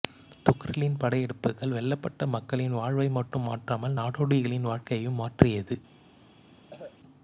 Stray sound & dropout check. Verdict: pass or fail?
fail